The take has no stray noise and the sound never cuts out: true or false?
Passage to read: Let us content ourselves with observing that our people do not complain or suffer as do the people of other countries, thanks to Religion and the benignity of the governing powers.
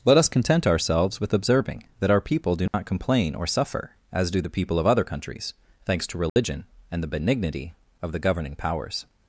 false